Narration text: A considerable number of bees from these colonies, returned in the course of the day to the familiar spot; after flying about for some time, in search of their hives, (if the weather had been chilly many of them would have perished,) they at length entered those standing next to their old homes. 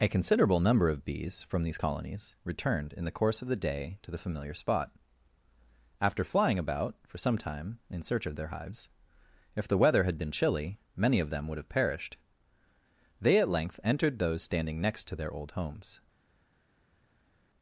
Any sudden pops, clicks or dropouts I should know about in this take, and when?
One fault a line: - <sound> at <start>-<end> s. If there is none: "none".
none